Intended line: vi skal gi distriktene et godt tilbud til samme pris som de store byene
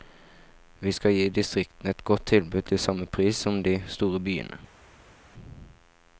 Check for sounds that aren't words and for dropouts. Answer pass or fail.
pass